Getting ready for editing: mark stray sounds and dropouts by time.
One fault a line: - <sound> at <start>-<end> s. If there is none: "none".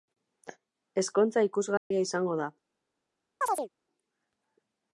- dropout at 1.8-1.9 s
- chirp at 3.4-3.7 s